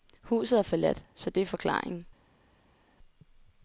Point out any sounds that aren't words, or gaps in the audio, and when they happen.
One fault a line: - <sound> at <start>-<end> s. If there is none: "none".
none